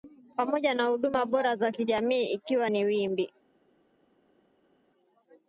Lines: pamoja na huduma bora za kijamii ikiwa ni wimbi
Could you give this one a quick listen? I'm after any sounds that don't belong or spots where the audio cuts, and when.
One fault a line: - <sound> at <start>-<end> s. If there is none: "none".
none